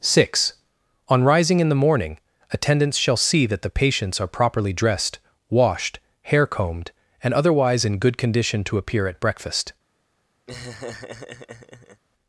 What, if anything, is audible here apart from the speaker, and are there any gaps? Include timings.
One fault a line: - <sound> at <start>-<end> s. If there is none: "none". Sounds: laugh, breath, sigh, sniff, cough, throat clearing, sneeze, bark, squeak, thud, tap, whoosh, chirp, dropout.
- laugh at 10.5-12.0 s